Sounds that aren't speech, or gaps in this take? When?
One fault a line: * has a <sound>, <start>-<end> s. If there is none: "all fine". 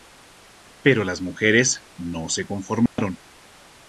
* has a dropout, 2.9-3.0 s